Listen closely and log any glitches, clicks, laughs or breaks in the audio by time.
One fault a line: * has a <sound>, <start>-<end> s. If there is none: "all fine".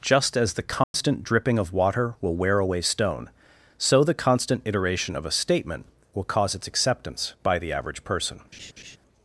* has a dropout, 0.8-0.9 s
* has a laugh, 8.5-9.0 s